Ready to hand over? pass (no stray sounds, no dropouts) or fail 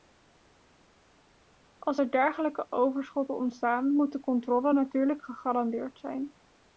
pass